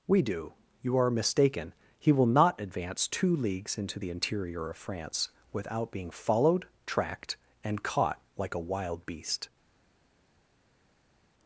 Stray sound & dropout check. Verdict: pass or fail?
pass